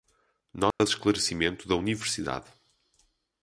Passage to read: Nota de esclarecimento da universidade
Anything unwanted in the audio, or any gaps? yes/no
yes